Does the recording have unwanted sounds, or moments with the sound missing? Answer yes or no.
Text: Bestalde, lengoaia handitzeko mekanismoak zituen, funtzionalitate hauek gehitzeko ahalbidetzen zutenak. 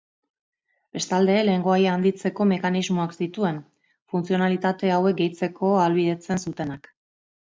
no